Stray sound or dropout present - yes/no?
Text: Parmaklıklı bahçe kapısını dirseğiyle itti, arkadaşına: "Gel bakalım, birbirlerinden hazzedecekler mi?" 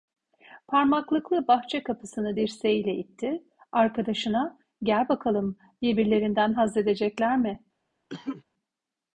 yes